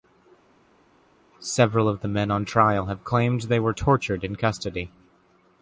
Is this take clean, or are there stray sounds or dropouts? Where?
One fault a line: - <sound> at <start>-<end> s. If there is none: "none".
none